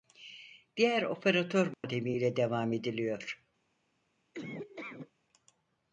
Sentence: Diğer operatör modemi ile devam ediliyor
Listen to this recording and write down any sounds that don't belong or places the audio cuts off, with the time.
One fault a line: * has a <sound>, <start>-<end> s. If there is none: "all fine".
* has a dropout, 1.7-1.8 s
* has a laugh, 4.3-5.1 s